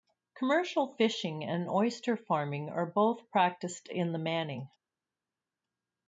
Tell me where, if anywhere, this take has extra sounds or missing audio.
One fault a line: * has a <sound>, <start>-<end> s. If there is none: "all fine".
all fine